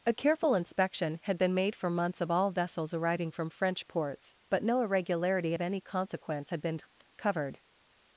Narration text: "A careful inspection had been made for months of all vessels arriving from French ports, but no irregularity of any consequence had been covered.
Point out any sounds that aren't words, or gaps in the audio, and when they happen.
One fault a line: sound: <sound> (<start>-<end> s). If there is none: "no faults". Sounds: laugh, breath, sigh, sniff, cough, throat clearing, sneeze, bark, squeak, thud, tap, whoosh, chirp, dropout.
no faults